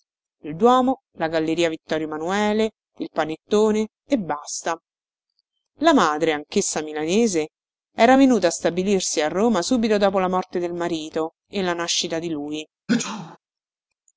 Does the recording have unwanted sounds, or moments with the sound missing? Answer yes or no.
yes